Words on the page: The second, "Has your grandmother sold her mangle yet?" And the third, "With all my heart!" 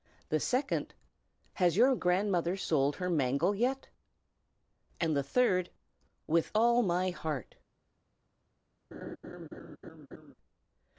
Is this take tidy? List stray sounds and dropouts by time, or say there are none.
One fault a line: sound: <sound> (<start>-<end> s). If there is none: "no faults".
sound: laugh (8.9-10.3 s)